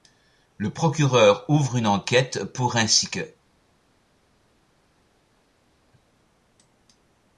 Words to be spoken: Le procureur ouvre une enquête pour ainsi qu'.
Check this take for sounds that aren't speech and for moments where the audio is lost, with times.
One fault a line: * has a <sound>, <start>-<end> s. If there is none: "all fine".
all fine